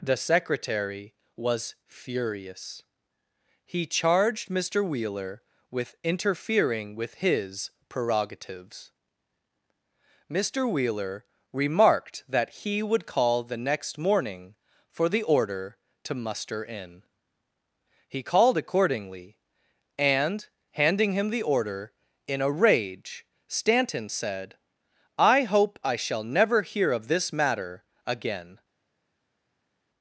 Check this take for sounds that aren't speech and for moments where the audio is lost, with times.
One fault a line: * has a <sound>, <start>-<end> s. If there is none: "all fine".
all fine